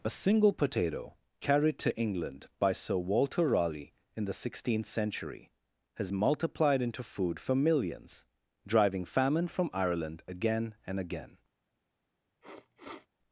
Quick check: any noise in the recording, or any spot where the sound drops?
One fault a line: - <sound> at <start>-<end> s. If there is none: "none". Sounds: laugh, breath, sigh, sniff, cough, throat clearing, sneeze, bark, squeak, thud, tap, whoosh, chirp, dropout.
- sniff at 12.4-13.1 s